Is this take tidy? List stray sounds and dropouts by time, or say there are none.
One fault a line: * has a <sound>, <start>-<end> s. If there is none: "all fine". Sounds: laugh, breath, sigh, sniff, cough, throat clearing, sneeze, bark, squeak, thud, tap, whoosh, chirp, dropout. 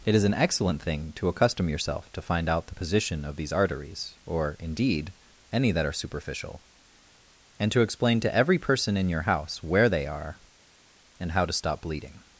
all fine